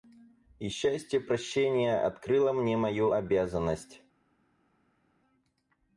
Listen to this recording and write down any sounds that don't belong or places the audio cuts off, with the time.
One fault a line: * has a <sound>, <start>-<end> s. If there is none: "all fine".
all fine